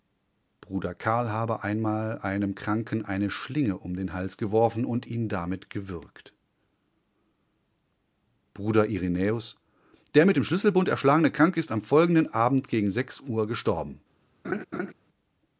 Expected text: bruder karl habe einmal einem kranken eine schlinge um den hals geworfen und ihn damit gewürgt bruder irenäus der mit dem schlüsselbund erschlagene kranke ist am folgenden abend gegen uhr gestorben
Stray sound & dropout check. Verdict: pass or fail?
fail